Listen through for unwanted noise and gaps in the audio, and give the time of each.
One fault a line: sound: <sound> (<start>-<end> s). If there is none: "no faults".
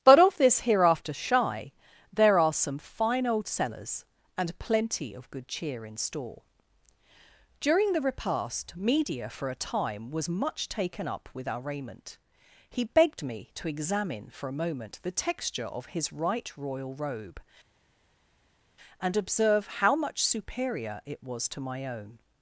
no faults